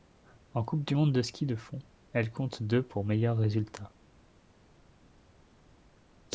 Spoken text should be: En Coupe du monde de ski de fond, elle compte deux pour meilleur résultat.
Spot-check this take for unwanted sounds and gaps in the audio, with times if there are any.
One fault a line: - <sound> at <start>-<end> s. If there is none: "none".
none